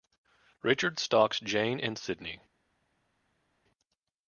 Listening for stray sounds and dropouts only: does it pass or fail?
pass